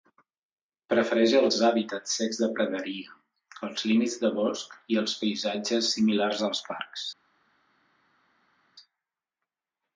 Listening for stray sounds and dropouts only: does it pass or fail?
pass